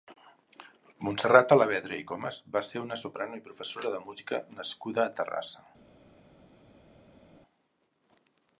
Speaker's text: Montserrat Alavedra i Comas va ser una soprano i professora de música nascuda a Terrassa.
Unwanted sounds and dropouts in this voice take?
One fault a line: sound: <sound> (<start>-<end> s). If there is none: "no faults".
no faults